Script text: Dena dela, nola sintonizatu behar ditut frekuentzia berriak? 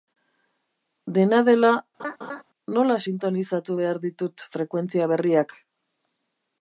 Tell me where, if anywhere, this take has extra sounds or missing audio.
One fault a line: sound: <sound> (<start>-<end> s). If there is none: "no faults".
sound: laugh (2.0-2.4 s)